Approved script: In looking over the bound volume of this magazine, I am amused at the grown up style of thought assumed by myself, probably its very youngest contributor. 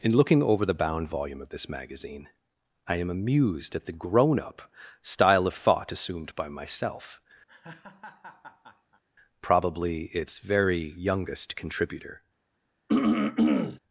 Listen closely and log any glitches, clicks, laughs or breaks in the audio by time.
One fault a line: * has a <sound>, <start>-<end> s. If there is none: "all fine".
* has a laugh, 7.5-9.0 s
* has a throat clearing, 12.9-13.8 s